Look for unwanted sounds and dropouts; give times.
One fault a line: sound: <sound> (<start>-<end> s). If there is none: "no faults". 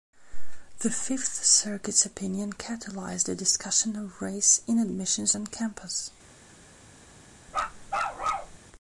sound: bark (7.5-8.6 s)